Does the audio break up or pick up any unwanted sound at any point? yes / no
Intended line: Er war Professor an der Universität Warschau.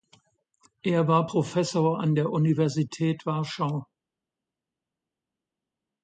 no